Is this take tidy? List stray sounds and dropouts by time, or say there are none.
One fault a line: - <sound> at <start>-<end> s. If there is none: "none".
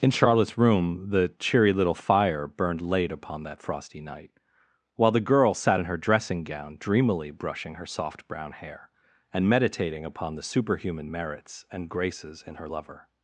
none